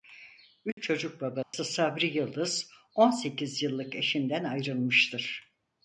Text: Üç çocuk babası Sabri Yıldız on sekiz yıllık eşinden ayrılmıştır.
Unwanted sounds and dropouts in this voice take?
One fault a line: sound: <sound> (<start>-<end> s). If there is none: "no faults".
sound: dropout (0.7-0.8 s)
sound: dropout (1.4-1.5 s)